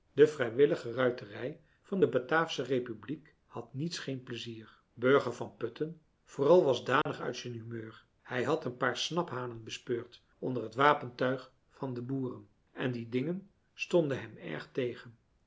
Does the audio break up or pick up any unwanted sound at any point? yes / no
yes